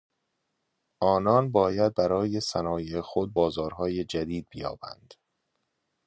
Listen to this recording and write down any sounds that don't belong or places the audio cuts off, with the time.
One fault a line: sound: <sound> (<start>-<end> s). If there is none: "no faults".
no faults